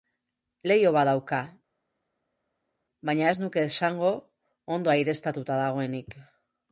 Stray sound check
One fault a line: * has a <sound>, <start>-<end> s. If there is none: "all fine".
all fine